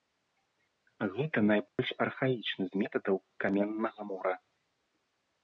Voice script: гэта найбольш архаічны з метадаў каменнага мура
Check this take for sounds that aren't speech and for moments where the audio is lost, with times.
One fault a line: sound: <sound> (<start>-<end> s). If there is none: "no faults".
sound: dropout (1.7-1.8 s)